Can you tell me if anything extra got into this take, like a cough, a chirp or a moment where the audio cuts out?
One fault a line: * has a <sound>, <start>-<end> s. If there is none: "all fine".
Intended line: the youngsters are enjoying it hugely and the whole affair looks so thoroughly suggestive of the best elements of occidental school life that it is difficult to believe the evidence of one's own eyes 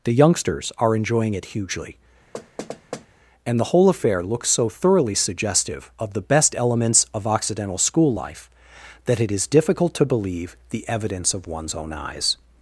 * has a thud, 2.3-3.1 s